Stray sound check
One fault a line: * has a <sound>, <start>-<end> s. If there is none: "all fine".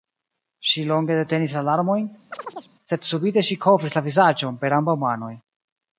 * has a chirp, 2.3-2.7 s